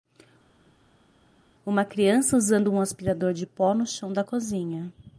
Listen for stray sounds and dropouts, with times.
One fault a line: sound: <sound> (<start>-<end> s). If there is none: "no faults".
no faults